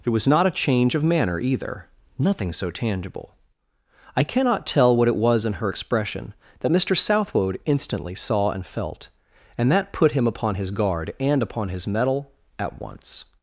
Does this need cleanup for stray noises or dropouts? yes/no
no